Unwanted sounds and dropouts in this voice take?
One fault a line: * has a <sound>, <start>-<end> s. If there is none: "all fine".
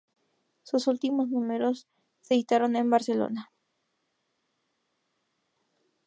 all fine